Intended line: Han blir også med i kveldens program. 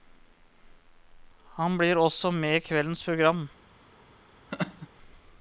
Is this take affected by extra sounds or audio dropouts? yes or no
yes